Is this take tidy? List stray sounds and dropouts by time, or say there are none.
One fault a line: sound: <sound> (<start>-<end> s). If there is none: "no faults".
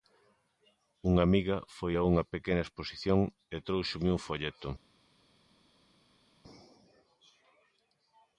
no faults